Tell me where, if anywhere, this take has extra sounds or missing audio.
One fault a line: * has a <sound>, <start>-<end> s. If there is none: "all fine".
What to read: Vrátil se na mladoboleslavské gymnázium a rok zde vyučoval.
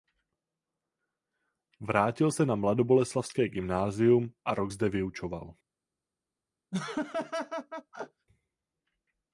* has a laugh, 6.7-8.3 s